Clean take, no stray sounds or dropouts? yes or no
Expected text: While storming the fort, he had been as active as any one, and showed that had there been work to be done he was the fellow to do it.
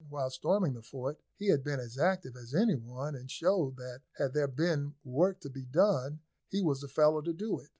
yes